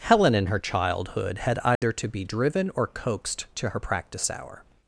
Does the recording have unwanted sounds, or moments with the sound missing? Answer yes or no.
yes